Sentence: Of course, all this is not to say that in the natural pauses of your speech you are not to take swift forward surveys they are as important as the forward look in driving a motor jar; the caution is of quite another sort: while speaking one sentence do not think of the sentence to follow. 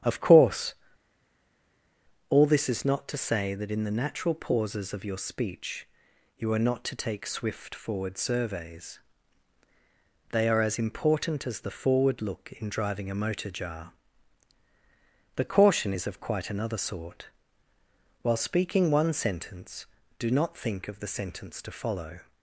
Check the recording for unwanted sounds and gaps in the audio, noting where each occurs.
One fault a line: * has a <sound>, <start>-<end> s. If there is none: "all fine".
all fine